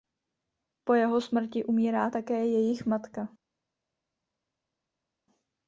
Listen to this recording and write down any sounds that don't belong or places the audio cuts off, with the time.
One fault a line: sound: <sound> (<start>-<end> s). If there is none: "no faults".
no faults